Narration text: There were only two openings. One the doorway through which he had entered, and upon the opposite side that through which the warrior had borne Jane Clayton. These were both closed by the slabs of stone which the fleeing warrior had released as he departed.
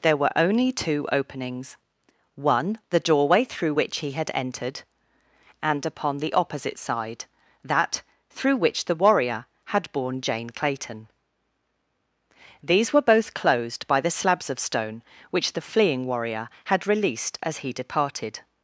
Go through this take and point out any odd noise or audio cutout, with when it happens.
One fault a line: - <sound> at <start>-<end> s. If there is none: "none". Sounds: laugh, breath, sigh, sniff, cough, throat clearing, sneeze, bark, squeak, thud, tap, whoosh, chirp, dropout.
none